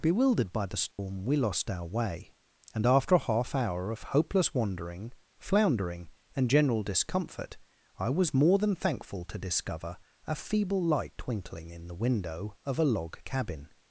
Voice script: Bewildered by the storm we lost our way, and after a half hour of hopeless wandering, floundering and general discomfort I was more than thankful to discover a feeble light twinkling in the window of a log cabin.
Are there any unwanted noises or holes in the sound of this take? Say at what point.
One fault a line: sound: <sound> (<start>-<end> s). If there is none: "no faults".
sound: dropout (0.9-1.0 s)